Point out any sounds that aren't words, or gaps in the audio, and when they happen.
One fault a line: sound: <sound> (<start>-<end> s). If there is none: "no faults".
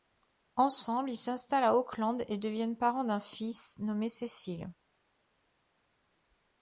no faults